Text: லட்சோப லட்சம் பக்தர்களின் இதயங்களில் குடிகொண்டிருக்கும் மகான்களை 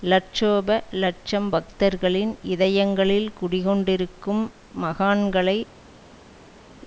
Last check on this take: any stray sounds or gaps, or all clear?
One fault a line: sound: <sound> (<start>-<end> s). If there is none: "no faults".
no faults